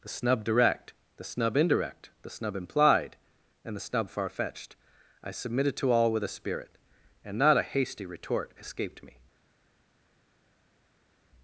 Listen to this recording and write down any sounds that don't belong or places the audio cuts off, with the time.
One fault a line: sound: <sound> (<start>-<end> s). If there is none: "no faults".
no faults